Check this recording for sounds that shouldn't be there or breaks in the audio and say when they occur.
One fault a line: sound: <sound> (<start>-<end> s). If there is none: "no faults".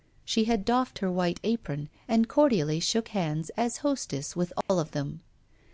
sound: dropout (4.6-4.7 s)